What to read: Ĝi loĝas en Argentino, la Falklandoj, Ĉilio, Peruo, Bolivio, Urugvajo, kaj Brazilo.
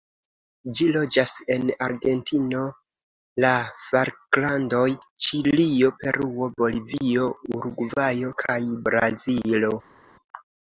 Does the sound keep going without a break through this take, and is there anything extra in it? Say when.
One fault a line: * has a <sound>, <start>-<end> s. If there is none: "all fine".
all fine